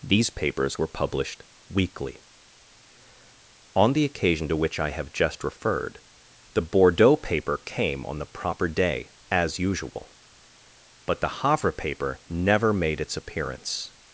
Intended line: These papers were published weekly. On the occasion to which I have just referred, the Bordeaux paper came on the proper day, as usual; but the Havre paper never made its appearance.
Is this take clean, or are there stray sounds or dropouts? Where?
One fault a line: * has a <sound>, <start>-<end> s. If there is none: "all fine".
all fine